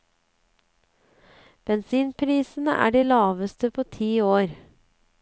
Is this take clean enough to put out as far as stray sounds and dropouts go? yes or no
yes